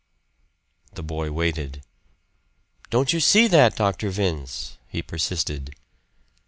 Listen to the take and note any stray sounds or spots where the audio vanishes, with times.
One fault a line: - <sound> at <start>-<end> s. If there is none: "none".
none